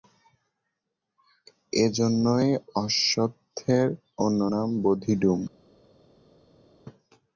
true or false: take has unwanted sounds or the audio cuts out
false